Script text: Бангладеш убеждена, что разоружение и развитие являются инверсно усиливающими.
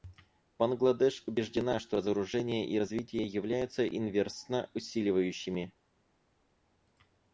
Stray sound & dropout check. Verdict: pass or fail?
pass